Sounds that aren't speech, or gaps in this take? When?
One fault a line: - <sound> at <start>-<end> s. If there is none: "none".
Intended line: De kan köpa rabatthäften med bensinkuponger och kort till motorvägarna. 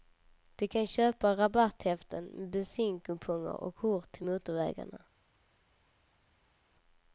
none